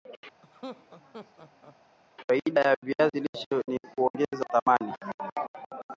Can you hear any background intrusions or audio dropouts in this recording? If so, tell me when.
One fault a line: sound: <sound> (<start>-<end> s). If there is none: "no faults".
sound: laugh (0.4-1.8 s)